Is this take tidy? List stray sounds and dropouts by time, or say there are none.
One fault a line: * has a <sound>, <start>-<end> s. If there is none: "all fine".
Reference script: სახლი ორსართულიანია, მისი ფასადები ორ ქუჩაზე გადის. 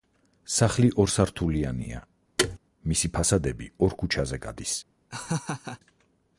* has a thud, 2.4-2.6 s
* has a laugh, 5.1-5.8 s